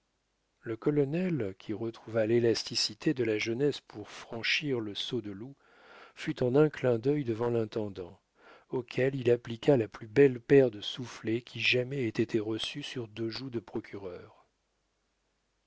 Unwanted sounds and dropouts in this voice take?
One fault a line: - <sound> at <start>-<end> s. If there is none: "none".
none